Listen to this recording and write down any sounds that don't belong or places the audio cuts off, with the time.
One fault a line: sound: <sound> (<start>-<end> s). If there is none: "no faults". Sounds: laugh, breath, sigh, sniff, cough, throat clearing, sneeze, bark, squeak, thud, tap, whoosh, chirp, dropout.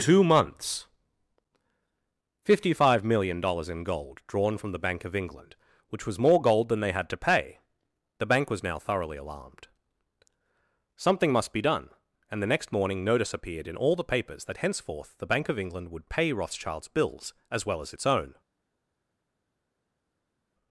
no faults